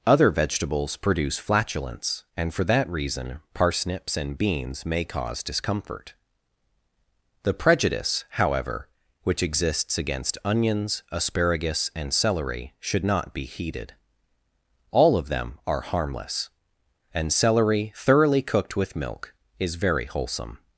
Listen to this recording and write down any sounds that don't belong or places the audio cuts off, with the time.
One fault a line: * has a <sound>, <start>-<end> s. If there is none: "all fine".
all fine